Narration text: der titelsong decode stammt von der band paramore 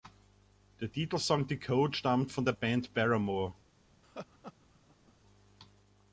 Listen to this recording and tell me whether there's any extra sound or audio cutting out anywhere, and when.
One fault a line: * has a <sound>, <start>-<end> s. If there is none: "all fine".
* has a laugh, 4.0-5.1 s